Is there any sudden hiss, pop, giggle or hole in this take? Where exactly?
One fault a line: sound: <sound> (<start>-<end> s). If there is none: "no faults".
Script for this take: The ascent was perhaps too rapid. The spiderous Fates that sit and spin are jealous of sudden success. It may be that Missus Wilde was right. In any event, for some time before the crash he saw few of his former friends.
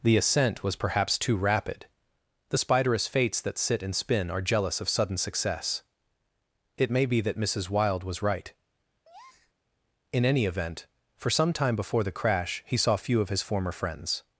sound: breath (9.0-9.5 s)